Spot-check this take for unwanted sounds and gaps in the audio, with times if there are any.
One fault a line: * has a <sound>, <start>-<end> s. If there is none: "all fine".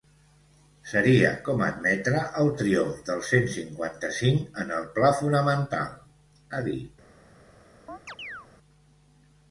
* has a chirp, 7.9-8.5 s